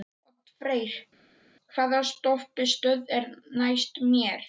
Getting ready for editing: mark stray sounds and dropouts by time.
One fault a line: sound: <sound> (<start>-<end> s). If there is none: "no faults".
no faults